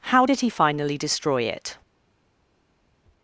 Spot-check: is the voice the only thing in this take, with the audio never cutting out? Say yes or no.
yes